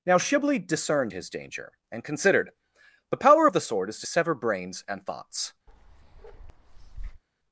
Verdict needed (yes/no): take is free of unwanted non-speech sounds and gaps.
no